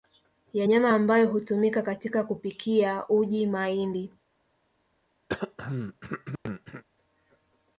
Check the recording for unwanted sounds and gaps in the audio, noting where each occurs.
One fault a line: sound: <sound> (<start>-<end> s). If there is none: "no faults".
sound: throat clearing (5.3-6.8 s)